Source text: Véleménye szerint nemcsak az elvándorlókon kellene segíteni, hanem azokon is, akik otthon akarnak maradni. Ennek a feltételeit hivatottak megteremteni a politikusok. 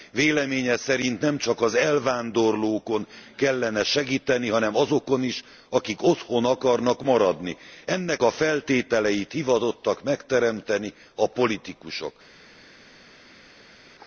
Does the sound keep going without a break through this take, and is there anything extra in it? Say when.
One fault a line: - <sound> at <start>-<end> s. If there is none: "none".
none